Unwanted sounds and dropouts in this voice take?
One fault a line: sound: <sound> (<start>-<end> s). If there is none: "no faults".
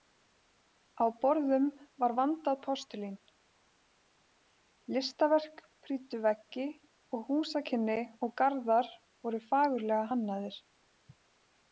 no faults